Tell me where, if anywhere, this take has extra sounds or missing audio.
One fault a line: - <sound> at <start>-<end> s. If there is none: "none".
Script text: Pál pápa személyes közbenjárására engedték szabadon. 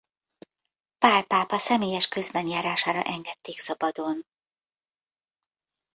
none